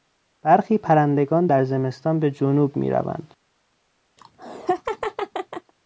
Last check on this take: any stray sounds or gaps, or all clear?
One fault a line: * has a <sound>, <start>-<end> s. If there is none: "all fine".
* has a laugh, 4.2-5.7 s